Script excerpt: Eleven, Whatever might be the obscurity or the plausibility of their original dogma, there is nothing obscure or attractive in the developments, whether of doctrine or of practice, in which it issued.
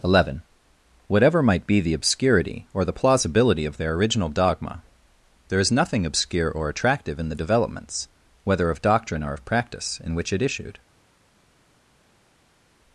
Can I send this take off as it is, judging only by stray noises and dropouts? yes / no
yes